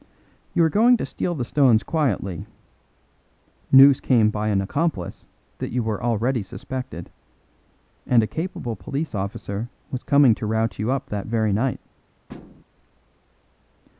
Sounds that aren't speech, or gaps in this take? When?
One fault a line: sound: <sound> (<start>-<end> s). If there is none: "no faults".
sound: thud (12.3-12.6 s)